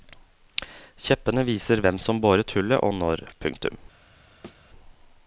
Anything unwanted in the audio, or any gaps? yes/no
yes